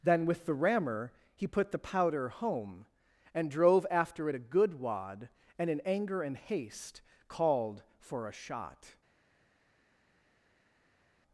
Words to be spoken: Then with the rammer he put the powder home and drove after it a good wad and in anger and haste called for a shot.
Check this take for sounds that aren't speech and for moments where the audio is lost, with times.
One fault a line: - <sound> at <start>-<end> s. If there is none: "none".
none